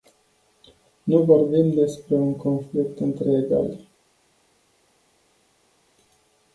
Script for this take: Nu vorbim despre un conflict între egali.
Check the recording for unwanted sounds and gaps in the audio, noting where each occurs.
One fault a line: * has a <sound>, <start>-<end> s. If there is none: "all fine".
all fine